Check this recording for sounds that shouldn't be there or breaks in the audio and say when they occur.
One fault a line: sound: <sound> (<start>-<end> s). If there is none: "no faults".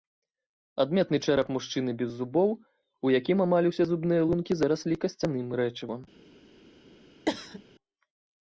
sound: cough (7.3-7.6 s)